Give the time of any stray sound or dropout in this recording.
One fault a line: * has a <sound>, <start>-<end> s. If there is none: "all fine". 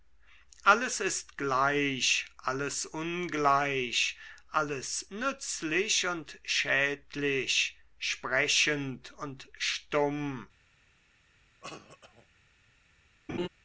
* has a cough, 11.6-12.3 s
* has a laugh, 13.3-13.5 s